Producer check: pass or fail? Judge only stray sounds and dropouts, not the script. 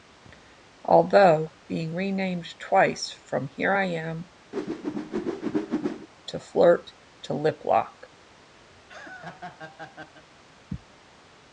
fail